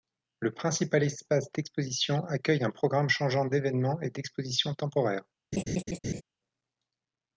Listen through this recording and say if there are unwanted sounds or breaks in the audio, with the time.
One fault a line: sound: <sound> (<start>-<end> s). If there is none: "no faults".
sound: laugh (5.5-6.2 s)